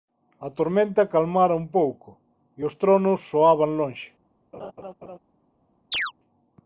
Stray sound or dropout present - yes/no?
yes